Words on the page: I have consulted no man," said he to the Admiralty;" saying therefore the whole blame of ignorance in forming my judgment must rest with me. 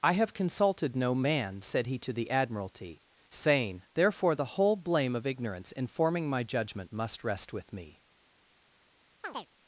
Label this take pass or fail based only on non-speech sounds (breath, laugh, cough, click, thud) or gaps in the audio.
fail